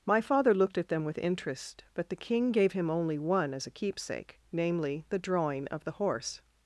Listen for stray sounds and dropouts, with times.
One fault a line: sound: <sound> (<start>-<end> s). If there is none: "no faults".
no faults